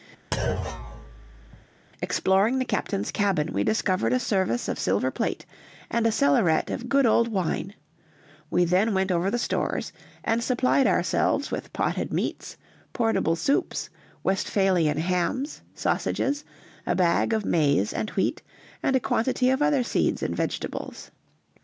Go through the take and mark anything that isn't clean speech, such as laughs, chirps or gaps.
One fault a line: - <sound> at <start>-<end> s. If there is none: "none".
- thud at 0.3-1.7 s